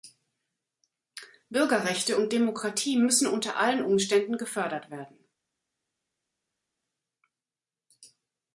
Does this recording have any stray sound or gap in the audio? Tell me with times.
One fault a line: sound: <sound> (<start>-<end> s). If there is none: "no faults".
no faults